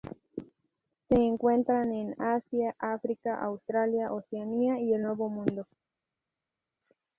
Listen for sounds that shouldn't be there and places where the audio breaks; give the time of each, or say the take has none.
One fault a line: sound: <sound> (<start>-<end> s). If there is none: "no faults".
no faults